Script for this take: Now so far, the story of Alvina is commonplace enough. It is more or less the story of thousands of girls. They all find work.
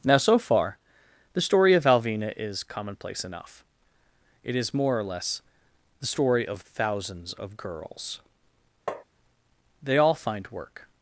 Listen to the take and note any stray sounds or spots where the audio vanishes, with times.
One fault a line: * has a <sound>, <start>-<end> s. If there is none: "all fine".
* has a tap, 8.9-9.0 s